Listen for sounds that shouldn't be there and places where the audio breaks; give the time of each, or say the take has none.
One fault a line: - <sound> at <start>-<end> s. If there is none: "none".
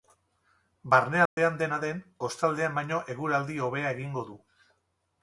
- dropout at 1.3-1.4 s